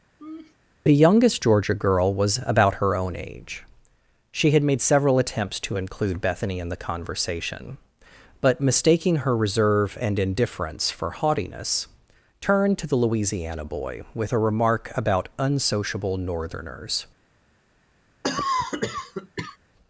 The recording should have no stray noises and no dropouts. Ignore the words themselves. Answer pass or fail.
fail